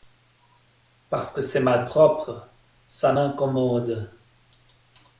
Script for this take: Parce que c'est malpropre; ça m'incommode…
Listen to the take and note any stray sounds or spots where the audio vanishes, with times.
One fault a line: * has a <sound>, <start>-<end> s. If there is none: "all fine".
all fine